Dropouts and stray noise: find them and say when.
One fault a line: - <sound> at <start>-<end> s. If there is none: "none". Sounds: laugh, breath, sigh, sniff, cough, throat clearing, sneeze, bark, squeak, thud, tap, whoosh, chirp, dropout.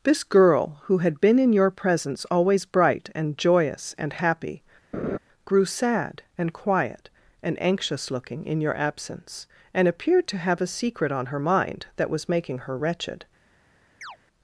- laugh at 4.9-5.2 s
- chirp at 14.0-14.2 s